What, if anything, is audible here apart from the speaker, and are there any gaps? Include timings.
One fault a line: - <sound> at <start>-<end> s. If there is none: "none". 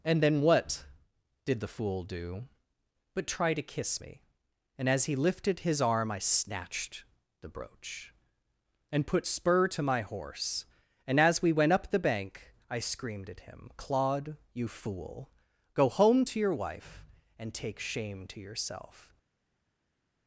none